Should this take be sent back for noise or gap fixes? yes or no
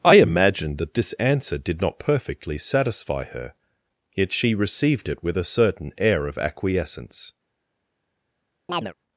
yes